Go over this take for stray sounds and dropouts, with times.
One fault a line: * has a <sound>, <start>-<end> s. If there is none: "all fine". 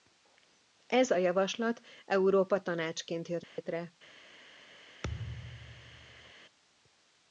* has a dropout, 3.4-3.6 s
* has a thud, 5.0-6.3 s